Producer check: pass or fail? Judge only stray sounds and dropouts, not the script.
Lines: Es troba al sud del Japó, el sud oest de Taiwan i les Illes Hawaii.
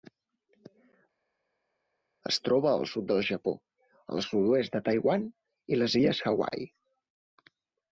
pass